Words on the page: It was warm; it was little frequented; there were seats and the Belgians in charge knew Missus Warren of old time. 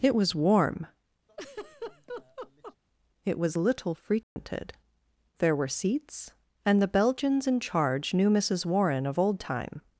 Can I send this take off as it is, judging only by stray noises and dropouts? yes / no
no